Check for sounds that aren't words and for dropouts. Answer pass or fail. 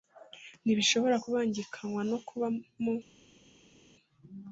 pass